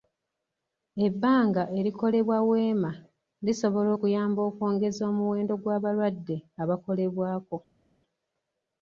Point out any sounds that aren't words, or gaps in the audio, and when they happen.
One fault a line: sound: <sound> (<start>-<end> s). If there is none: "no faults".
no faults